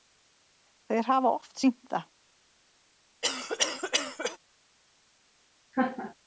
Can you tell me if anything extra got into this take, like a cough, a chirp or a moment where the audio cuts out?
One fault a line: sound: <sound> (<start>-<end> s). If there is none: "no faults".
sound: cough (3.2-4.4 s)
sound: laugh (5.7-6.1 s)